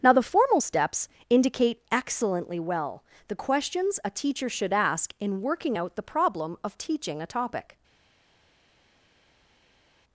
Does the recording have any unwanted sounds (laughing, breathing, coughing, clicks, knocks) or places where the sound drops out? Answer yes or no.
no